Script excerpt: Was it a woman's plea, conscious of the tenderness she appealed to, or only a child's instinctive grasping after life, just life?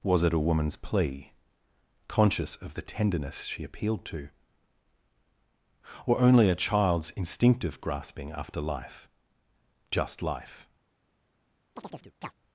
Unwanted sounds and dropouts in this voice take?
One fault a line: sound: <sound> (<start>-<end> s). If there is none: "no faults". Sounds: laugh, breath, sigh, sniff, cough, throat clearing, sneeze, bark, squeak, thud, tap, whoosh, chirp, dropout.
sound: chirp (11.8-12.3 s)